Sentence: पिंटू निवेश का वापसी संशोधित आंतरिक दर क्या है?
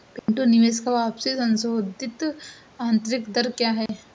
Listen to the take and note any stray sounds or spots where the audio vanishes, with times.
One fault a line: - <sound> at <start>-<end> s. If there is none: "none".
- dropout at 0.2-0.3 s
- dropout at 3.9-3.9 s